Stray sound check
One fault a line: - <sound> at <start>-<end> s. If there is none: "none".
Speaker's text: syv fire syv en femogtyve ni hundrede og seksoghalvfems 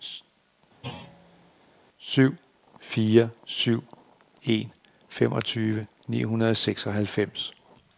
- thud at 0.8-1.5 s